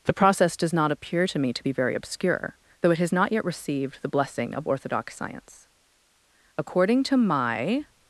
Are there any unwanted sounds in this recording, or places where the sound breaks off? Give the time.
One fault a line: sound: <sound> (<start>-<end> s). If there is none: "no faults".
no faults